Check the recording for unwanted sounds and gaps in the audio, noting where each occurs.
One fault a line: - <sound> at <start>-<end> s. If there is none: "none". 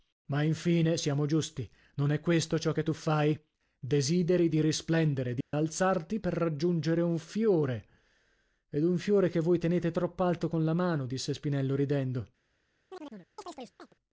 - dropout at 5.4-5.5 s
- chirp at 12.9-13.9 s